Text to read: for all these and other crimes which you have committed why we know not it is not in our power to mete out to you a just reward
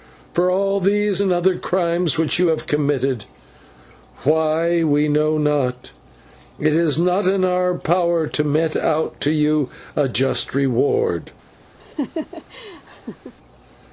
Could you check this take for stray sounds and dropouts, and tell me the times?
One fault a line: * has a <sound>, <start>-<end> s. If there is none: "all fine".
* has a laugh, 11.8-13.3 s